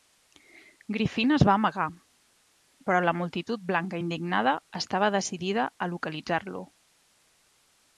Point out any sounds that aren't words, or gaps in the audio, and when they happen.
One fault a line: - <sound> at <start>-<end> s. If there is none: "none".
none